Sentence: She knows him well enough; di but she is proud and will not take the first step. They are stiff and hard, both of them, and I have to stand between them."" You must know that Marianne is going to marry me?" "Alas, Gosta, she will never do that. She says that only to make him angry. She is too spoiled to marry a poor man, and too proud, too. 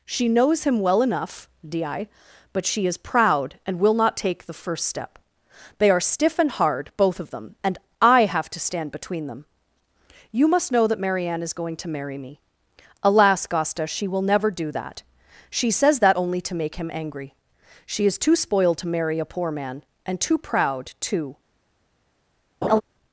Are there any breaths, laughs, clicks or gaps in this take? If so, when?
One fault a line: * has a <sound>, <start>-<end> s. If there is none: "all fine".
* has a laugh, 22.6-22.8 s